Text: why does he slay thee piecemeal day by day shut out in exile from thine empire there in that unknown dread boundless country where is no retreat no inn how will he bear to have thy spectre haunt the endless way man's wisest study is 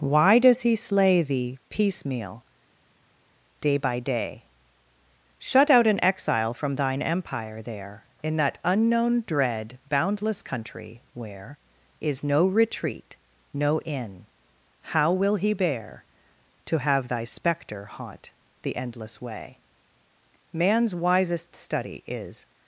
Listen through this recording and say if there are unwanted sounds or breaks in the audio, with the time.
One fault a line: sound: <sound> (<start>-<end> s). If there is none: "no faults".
no faults